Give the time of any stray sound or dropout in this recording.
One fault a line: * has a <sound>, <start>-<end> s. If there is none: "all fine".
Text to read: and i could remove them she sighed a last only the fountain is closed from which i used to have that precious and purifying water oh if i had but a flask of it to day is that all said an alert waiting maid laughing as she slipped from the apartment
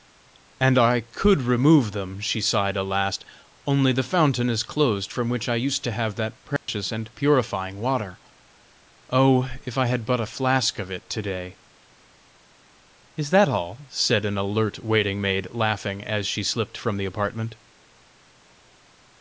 * has a dropout, 6.6-6.7 s